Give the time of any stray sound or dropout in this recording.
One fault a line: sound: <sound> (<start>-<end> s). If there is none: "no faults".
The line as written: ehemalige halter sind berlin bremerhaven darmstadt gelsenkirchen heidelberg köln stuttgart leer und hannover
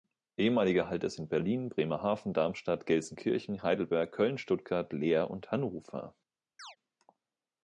sound: chirp (6.6-6.8 s)